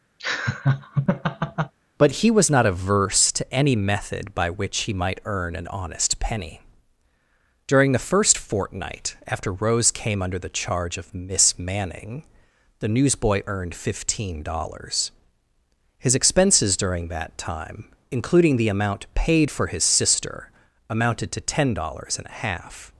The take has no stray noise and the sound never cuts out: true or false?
false